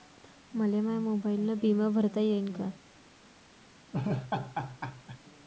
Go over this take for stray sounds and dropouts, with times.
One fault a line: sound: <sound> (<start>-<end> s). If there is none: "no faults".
sound: laugh (3.9-5.2 s)